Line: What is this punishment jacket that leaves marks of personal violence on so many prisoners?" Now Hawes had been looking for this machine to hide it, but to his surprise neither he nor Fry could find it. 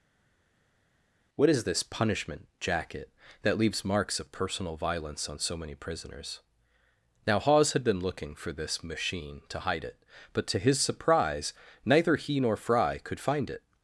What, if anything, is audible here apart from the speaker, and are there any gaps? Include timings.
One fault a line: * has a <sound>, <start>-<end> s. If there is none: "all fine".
all fine